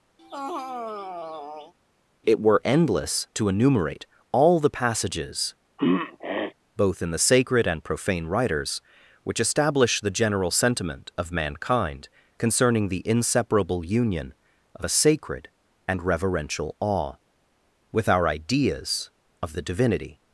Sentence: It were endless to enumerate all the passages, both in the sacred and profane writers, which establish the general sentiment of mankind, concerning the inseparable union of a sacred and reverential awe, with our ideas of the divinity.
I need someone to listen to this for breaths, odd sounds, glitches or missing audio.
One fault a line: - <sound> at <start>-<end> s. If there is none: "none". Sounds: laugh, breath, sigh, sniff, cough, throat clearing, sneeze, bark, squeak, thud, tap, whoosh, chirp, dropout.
- sigh at 0.2-1.7 s
- throat clearing at 5.8-6.5 s